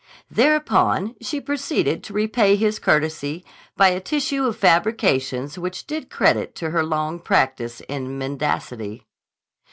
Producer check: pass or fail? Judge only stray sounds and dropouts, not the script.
pass